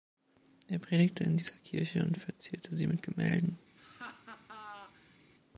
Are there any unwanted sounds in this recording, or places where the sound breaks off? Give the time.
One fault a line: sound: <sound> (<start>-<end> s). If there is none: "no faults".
sound: laugh (3.8-5.2 s)